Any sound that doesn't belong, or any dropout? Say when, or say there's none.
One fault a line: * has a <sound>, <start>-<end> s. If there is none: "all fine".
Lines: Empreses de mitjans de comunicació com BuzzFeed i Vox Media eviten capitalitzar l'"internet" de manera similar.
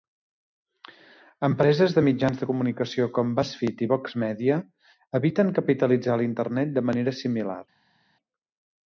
all fine